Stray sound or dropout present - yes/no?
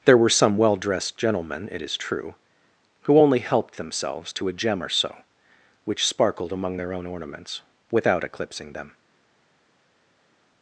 no